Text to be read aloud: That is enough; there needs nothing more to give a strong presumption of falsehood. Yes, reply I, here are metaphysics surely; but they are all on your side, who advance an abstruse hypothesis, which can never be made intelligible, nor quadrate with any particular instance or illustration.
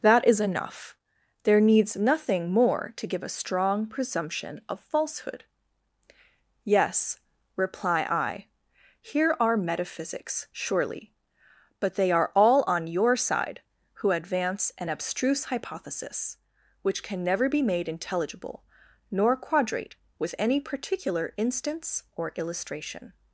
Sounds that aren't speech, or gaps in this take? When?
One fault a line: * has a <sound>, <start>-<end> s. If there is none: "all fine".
all fine